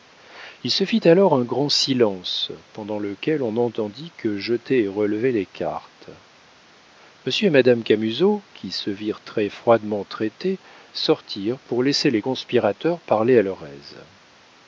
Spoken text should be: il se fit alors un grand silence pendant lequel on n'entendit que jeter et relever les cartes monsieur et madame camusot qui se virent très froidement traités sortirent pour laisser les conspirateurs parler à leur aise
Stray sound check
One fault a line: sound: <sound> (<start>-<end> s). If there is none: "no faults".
no faults